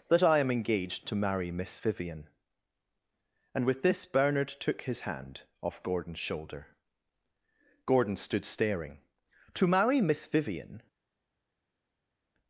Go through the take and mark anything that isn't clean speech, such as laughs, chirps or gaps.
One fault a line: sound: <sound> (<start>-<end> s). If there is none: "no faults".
no faults